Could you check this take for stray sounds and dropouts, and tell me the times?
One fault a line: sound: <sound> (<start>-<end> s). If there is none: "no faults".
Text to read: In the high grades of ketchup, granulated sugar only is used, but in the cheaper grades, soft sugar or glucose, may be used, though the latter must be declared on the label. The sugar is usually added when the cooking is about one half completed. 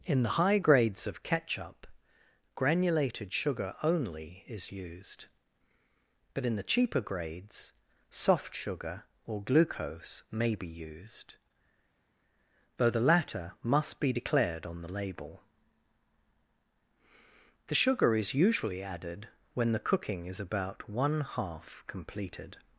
no faults